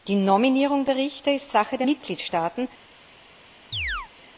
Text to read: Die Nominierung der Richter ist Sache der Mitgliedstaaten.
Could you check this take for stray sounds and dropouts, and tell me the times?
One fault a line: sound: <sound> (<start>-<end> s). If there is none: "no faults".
sound: chirp (3.7-4.1 s)